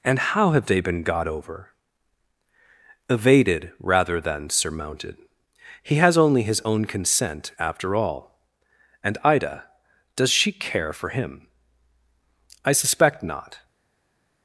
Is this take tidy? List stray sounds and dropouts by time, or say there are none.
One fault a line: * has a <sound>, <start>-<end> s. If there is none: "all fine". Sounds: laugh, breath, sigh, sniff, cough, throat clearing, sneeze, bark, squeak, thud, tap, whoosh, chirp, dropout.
all fine